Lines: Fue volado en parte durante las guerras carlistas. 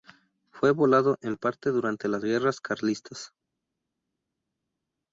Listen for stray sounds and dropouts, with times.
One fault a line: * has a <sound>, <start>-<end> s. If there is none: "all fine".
all fine